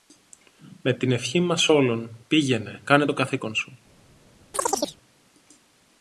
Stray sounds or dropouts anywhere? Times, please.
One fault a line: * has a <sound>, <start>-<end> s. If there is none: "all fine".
* has a chirp, 4.5-5.0 s